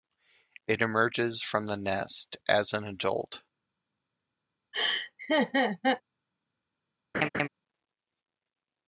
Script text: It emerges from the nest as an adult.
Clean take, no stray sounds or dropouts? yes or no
no